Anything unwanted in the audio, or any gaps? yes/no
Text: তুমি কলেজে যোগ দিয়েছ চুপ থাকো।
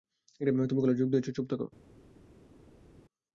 no